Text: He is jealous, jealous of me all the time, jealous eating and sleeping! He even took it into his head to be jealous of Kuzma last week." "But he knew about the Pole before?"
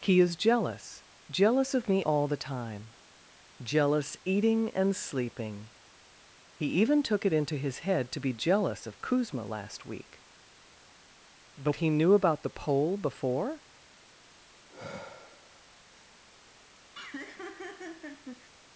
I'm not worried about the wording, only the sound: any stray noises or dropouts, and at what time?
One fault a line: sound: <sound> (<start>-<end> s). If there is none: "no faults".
sound: sigh (14.7-15.7 s)
sound: laugh (16.9-18.5 s)